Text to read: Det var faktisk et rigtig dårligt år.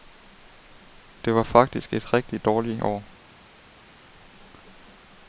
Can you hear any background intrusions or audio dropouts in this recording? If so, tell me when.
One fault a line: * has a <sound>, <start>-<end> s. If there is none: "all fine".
all fine